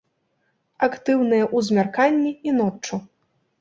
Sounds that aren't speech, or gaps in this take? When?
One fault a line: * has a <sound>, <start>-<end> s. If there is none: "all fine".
all fine